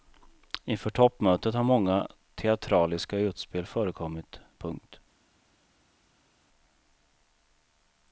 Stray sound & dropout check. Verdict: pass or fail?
pass